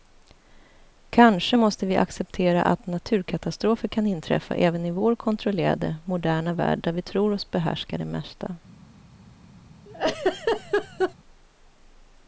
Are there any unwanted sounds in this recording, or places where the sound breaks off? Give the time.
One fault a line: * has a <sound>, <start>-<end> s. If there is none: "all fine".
* has a laugh, 9.9-11.1 s